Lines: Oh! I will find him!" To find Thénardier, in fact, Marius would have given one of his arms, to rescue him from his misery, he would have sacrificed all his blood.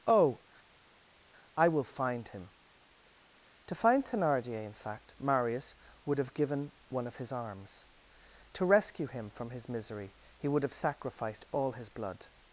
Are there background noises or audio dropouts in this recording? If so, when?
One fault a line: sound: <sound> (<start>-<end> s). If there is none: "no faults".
no faults